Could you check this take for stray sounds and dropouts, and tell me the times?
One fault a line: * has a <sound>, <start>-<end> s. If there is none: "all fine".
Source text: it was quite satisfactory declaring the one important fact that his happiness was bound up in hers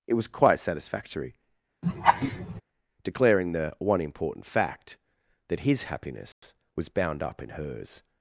* has a laugh, 1.8-2.6 s
* has a dropout, 6.3-6.4 s